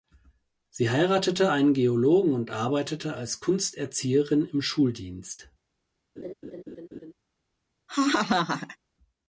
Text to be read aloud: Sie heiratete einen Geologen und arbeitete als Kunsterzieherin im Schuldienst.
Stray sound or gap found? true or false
true